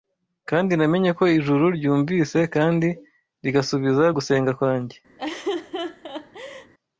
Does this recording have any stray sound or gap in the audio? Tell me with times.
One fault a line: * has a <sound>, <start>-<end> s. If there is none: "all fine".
* has a laugh, 5.2-6.7 s